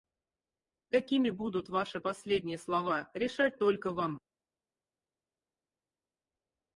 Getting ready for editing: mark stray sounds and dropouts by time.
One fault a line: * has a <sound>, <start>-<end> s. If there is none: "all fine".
all fine